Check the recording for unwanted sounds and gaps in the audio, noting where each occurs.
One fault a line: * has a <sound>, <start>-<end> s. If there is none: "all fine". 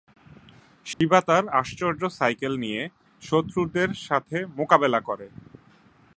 * has a dropout, 0.9-1.0 s